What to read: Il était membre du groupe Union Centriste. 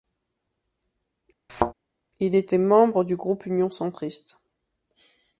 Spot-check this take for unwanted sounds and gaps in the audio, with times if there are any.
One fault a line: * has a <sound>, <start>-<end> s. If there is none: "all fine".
* has a thud, 1.5-1.7 s